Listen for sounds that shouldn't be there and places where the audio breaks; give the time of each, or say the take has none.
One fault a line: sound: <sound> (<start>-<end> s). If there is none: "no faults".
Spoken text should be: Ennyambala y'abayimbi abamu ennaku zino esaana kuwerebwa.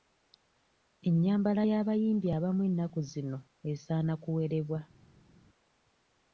no faults